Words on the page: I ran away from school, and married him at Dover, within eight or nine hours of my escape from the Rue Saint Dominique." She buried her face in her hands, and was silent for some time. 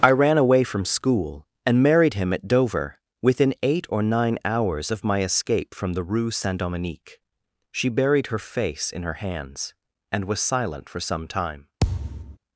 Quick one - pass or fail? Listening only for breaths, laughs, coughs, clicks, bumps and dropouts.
fail